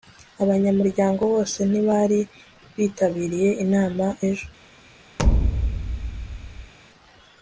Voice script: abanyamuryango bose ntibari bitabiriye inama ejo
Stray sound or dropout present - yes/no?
yes